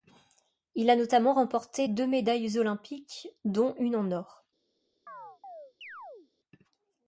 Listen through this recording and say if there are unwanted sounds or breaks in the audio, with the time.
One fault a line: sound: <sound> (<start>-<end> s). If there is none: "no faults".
sound: chirp (5.1-6.3 s)